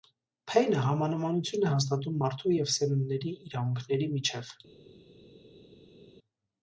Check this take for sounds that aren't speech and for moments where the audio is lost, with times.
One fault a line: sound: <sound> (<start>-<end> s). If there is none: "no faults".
no faults